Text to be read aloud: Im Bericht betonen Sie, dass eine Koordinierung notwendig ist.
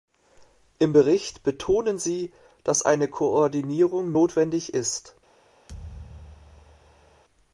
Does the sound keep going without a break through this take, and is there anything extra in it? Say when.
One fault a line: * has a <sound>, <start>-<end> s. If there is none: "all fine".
* has a thud, 5.7-7.2 s